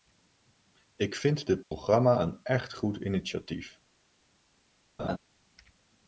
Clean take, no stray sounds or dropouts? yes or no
no